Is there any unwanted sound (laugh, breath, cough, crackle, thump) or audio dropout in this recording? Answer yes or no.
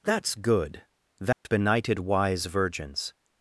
yes